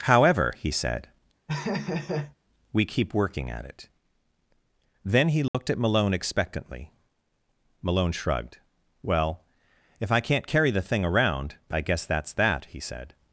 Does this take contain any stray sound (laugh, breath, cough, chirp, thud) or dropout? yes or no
yes